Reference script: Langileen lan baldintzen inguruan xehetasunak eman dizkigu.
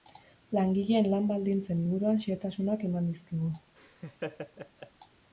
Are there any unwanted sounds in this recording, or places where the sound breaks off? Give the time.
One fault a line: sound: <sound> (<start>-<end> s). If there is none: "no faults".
sound: laugh (3.8-4.9 s)